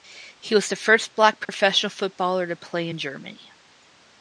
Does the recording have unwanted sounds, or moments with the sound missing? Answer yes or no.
yes